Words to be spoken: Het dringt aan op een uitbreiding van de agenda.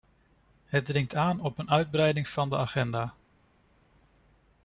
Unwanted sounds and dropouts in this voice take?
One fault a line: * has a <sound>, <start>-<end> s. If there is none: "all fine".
all fine